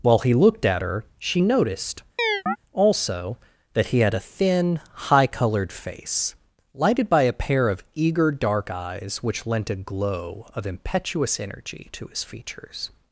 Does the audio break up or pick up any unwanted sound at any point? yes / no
yes